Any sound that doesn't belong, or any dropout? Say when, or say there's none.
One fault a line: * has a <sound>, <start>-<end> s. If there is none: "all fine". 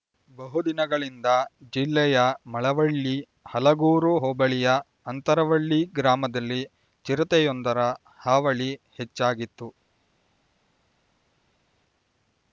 all fine